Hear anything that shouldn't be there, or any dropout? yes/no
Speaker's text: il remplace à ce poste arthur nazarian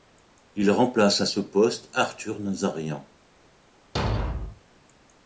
yes